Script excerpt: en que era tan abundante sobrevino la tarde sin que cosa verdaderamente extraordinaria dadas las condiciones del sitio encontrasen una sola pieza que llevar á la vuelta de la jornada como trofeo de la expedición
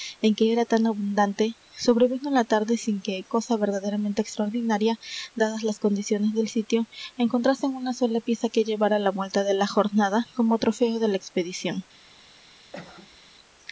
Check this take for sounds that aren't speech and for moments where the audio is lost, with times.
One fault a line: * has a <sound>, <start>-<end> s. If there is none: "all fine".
* has a cough, 12.7-13.2 s